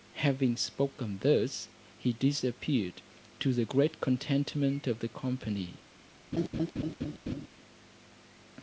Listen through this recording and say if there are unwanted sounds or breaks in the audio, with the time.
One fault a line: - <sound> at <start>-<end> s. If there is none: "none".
- laugh at 6.3-7.5 s